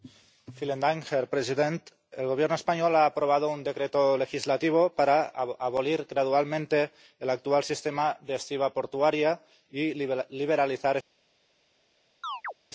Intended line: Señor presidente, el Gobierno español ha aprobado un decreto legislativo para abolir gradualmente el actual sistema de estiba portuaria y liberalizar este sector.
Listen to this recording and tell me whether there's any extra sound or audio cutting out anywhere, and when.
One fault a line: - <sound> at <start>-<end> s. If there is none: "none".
- chirp at 12.2-12.5 s